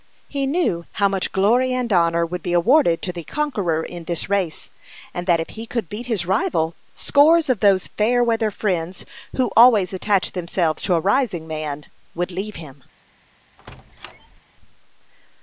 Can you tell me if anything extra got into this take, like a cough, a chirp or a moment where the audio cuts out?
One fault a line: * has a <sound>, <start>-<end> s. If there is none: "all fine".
* has a squeak, 13.6-14.4 s